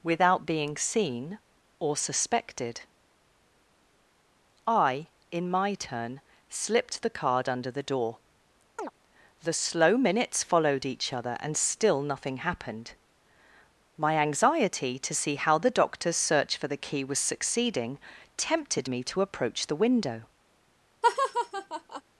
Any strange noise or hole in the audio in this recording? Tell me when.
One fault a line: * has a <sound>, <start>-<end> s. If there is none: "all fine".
* has a chirp, 8.8-8.9 s
* has a laugh, 21.0-22.0 s